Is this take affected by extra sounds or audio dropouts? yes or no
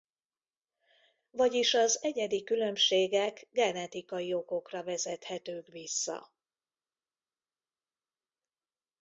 no